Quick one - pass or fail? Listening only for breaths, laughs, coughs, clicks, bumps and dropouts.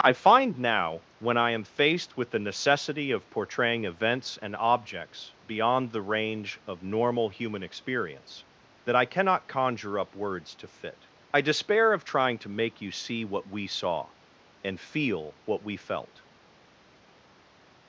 pass